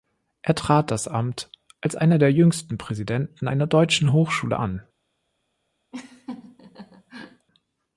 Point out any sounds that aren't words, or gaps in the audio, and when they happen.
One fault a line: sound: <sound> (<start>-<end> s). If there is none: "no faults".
sound: laugh (5.9-7.5 s)